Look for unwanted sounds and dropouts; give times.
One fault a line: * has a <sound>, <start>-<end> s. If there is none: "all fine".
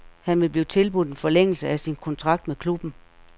all fine